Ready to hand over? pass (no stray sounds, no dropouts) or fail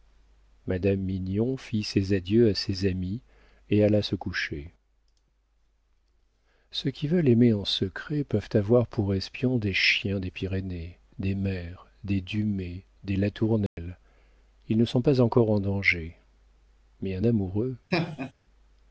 fail